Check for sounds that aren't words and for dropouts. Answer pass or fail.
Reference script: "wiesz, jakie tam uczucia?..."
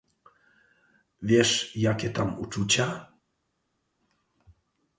pass